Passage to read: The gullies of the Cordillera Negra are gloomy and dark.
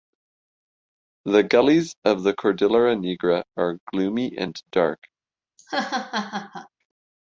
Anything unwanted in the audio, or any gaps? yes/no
yes